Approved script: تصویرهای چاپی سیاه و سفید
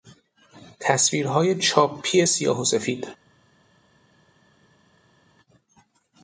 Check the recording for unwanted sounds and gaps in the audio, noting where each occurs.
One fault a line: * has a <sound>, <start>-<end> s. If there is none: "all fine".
all fine